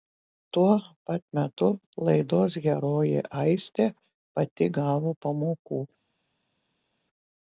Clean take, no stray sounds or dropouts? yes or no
yes